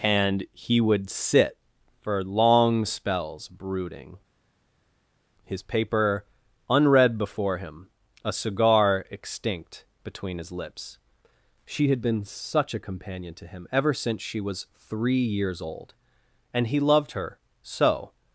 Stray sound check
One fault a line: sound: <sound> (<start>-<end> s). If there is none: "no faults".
no faults